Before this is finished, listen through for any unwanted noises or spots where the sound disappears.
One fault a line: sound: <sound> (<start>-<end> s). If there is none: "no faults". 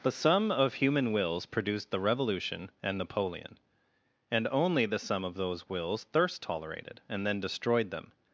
no faults